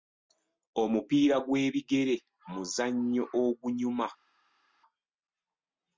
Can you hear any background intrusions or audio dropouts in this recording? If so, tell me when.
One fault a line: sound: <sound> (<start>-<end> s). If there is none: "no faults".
no faults